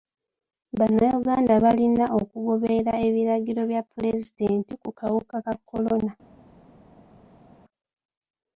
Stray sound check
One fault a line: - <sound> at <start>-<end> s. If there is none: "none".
none